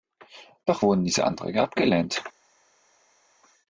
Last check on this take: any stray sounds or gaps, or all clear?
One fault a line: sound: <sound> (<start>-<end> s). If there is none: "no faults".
no faults